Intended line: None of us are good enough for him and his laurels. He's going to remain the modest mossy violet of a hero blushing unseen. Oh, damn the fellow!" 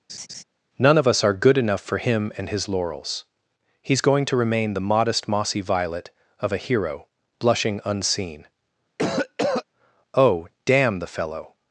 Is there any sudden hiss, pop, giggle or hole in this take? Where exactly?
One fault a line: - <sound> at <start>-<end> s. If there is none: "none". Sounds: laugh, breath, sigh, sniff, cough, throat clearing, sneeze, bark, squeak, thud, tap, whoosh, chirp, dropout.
- laugh at 0.1-0.4 s
- cough at 9.0-9.6 s